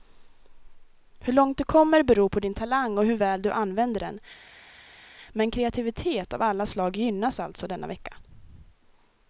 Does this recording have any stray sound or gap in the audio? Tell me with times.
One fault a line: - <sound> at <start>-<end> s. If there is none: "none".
none